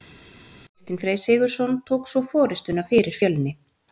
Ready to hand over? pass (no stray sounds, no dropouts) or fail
pass